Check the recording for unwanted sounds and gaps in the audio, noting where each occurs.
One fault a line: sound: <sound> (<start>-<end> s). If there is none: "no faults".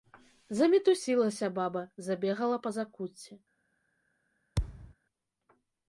sound: thud (4.6-4.9 s)